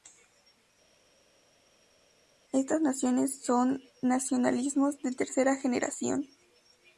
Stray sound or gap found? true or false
false